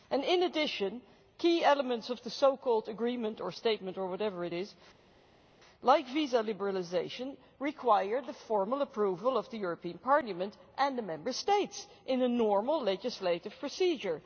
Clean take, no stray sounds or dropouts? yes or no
yes